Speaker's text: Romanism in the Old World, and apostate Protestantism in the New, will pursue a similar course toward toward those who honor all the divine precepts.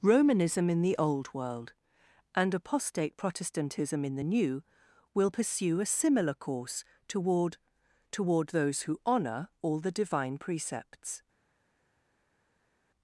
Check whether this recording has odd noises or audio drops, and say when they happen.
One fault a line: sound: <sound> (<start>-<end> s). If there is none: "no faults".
no faults